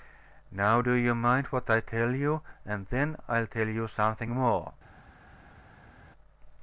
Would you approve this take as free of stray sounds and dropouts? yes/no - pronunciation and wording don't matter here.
yes